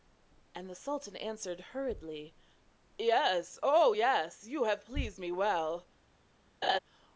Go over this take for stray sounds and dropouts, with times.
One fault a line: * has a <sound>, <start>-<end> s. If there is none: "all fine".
* has a laugh, 6.6-6.8 s